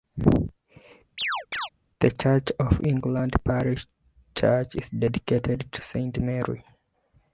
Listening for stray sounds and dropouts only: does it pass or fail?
fail